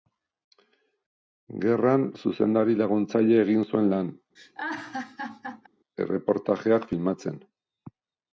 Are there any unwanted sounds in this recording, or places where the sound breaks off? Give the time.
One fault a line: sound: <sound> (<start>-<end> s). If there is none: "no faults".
sound: laugh (4.4-5.7 s)